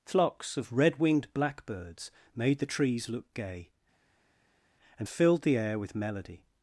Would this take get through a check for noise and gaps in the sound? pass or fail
pass